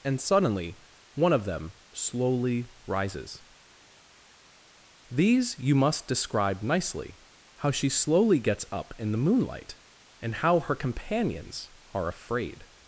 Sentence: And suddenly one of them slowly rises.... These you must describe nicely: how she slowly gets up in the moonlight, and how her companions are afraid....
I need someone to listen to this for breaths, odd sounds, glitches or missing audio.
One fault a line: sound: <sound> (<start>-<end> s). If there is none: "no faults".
no faults